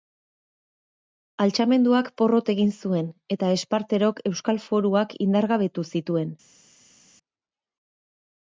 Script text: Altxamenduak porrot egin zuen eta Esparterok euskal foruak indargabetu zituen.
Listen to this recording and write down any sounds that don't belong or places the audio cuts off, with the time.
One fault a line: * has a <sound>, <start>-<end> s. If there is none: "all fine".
all fine